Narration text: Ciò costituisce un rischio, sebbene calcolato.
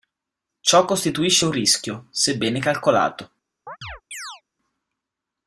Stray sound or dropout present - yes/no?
yes